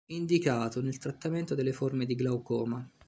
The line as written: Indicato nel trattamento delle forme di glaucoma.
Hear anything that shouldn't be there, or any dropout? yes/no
no